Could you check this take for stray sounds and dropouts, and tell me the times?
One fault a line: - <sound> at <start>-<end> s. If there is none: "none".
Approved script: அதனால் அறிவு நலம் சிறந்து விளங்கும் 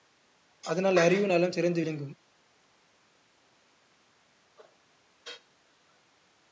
none